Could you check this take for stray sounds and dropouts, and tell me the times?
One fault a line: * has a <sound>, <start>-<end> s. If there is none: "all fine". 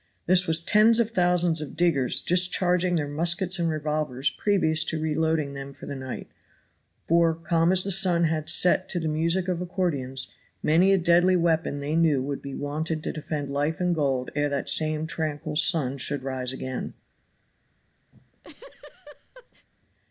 * has a laugh, 18.1-19.7 s